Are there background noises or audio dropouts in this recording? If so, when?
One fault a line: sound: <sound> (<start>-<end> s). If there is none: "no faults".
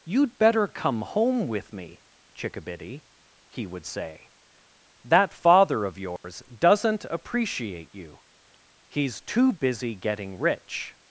sound: dropout (6.2-6.2 s)